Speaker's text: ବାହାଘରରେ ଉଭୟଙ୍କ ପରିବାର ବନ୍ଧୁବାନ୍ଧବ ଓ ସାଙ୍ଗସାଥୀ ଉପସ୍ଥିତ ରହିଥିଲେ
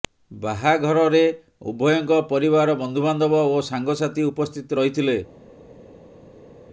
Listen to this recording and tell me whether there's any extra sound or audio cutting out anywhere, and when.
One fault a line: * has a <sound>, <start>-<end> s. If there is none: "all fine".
all fine